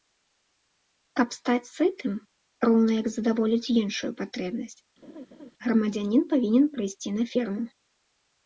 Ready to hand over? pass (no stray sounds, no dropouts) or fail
fail